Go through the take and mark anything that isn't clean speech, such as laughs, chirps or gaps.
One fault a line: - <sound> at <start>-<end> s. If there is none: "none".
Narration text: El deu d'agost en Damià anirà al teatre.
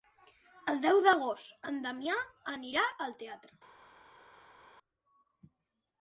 none